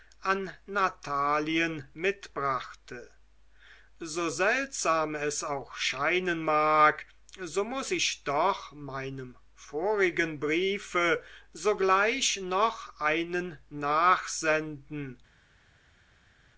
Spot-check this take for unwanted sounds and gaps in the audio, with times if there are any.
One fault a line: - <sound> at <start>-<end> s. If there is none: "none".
none